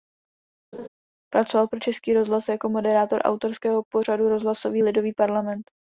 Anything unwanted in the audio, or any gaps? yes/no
yes